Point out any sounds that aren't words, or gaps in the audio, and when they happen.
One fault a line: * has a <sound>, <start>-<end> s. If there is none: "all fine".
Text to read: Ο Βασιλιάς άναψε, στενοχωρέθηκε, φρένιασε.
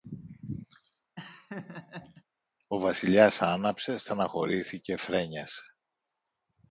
* has a laugh, 1.2-2.2 s